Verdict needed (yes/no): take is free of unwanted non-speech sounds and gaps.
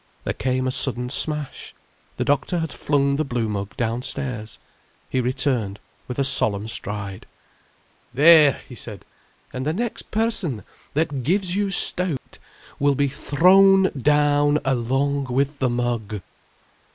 no